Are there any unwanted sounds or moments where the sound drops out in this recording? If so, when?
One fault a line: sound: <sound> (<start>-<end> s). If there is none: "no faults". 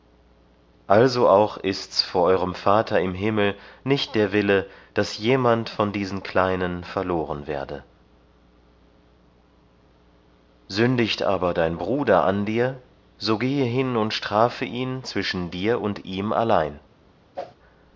sound: whoosh (17.4-17.6 s)